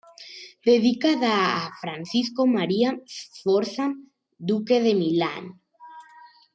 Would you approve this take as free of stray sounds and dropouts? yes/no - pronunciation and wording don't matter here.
yes